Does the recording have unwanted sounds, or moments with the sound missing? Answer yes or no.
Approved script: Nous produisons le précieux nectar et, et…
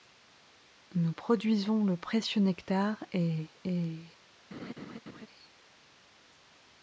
yes